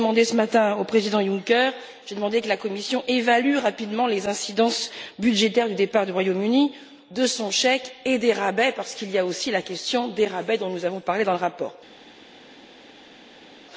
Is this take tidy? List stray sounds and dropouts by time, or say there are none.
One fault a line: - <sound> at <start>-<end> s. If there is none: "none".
none